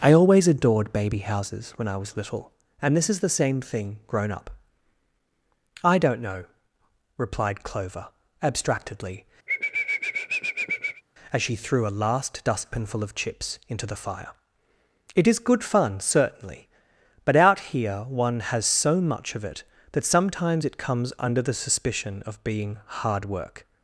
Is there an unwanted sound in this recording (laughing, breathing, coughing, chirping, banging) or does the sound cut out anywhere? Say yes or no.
yes